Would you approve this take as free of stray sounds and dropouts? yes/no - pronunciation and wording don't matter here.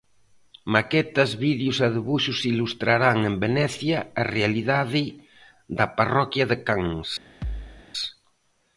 no